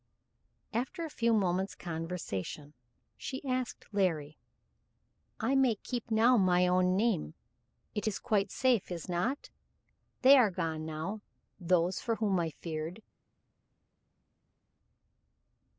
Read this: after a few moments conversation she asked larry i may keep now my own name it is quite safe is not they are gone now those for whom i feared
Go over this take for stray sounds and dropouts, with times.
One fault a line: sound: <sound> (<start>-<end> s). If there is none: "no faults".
no faults